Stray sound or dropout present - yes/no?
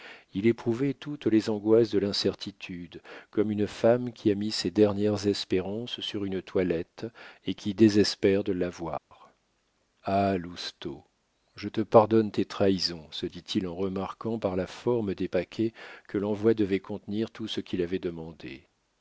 yes